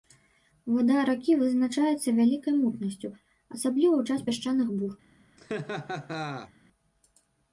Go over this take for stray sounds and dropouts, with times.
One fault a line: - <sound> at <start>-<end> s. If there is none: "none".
- laugh at 5.4-6.5 s